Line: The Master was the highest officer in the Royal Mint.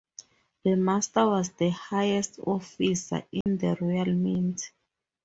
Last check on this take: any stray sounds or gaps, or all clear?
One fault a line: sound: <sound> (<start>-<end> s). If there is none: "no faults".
sound: dropout (3.4-3.5 s)